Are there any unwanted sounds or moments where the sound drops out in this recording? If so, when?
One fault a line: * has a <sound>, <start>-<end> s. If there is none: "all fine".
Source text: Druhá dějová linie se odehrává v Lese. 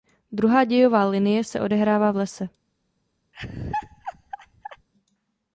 * has a laugh, 3.3-4.9 s